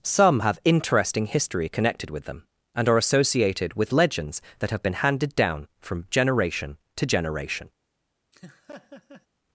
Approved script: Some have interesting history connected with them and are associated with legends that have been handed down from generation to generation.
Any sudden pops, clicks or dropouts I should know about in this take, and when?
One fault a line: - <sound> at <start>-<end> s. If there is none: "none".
- laugh at 8.3-9.3 s